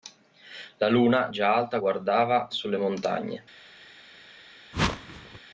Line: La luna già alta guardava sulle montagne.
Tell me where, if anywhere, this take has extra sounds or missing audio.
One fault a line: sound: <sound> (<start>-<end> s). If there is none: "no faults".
sound: whoosh (4.7-5.4 s)